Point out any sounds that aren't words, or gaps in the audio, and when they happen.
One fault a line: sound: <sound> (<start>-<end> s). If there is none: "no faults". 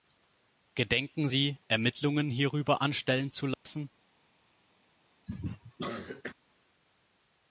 sound: dropout (3.5-3.7 s)
sound: cough (5.3-6.3 s)